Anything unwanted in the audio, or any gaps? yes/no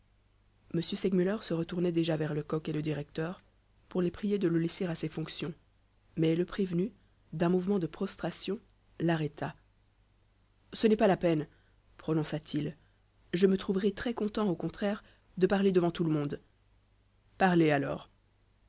no